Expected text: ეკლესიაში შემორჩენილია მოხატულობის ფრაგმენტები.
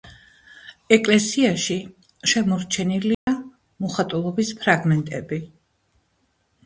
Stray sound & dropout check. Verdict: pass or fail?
fail